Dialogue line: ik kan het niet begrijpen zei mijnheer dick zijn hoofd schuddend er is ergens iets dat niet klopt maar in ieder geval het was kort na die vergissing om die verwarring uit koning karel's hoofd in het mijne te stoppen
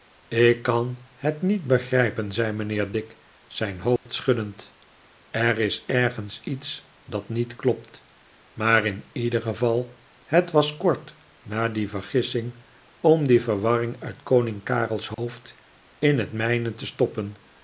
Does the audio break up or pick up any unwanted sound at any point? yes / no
yes